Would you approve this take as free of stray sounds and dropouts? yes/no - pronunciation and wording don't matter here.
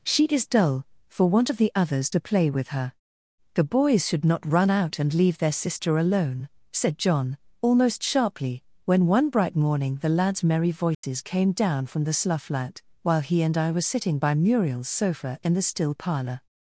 no